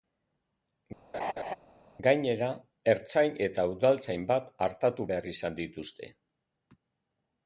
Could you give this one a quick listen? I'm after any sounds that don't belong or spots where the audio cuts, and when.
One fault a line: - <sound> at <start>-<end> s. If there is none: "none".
- laugh at 1.1-1.5 s